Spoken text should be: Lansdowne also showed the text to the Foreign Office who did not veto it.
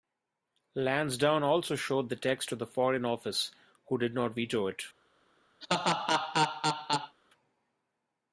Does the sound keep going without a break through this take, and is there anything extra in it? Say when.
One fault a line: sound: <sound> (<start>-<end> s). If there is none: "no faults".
sound: laugh (5.6-7.2 s)